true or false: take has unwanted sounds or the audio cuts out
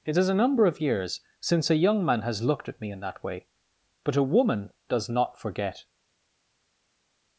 false